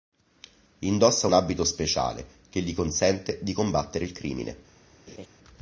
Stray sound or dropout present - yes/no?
yes